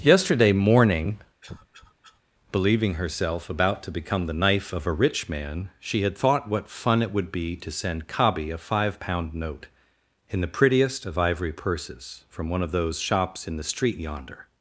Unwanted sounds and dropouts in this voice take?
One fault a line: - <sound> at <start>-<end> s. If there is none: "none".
- cough at 1.4-2.2 s